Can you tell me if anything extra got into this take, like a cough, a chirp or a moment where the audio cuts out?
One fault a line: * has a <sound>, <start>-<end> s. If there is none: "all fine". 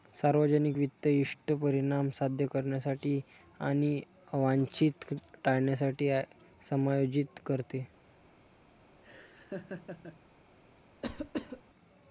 * has a laugh, 9.0-10.2 s
* has a cough, 11.0-11.6 s